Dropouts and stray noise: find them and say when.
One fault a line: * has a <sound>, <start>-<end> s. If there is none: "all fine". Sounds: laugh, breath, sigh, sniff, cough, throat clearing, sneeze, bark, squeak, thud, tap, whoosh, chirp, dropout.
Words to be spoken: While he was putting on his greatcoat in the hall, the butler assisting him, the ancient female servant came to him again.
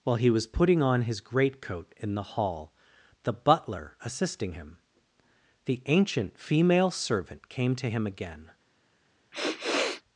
* has a sniff, 9.3-10.0 s